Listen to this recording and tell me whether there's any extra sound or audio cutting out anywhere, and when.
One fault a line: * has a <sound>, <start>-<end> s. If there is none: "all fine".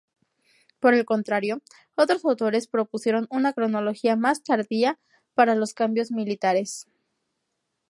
all fine